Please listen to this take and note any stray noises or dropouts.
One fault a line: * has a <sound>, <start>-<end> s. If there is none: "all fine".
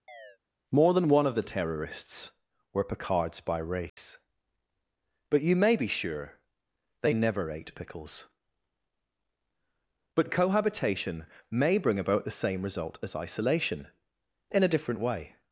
* has a chirp, 0.1-0.4 s
* has a dropout, 3.9-4.0 s